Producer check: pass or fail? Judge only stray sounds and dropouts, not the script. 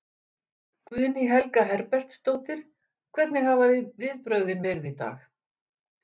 pass